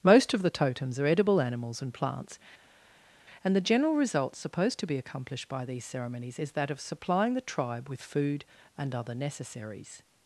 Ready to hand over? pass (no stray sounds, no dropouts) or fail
pass